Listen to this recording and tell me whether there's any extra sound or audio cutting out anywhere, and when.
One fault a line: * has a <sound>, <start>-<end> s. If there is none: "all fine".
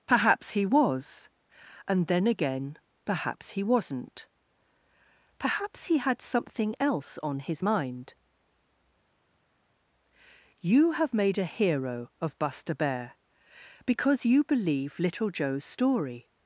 all fine